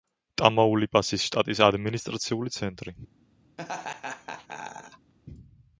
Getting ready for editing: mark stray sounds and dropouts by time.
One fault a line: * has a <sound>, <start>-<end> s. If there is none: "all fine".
* has a laugh, 3.6-5.1 s